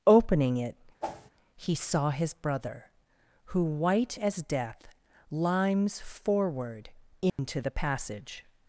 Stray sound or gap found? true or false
true